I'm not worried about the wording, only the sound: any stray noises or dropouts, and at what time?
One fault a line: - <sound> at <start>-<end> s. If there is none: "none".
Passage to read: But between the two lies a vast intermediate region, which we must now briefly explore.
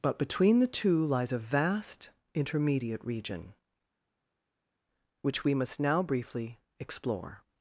none